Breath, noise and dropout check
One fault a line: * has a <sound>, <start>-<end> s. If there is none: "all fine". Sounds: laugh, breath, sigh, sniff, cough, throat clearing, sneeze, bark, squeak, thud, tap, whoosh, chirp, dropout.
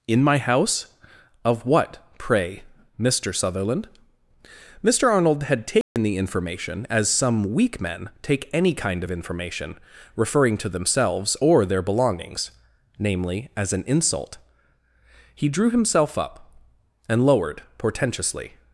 * has a dropout, 5.8-6.0 s